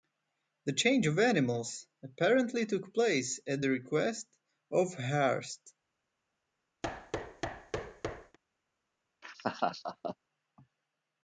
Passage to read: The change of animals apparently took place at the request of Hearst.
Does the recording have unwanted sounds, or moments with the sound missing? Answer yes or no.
yes